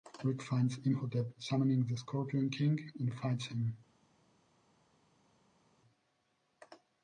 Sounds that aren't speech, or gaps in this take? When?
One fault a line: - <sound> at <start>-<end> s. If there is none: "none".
none